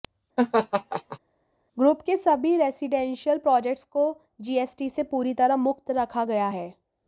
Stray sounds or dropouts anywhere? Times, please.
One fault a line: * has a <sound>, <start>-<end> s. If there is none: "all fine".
* has a laugh, 0.4-1.2 s